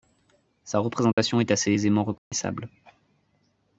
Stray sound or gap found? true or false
true